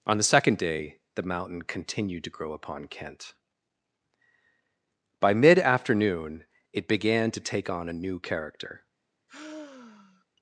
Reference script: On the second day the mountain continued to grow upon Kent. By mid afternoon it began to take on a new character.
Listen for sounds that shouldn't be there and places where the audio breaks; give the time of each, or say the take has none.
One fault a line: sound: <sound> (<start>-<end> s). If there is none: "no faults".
sound: sigh (9.3-10.2 s)